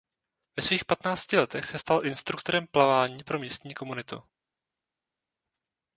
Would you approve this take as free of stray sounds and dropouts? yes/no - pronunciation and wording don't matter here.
yes